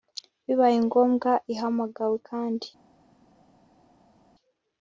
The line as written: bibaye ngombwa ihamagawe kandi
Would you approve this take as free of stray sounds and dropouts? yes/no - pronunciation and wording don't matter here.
yes